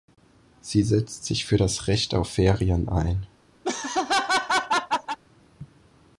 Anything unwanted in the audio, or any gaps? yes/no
yes